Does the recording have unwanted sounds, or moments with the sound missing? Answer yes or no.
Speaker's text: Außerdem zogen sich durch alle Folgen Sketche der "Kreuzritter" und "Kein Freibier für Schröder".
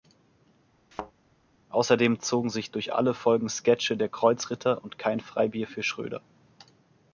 yes